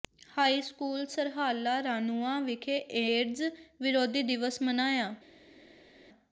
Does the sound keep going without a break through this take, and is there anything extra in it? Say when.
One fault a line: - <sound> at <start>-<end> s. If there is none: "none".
none